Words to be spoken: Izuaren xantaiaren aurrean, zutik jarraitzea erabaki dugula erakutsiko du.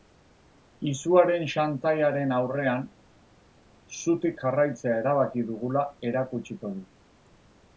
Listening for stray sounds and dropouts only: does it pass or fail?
pass